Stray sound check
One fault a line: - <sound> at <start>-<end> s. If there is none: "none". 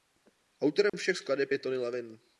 - dropout at 0.9-0.9 s